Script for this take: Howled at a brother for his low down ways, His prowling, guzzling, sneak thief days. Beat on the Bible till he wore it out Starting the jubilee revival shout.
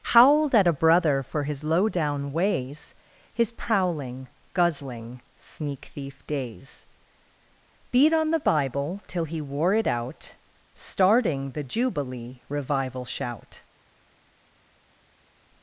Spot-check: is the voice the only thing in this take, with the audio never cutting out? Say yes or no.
yes